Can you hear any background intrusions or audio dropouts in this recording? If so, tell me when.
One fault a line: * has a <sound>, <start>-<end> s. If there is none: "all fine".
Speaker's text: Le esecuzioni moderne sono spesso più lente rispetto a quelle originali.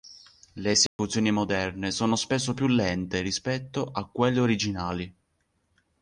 * has a dropout, 0.9-1.0 s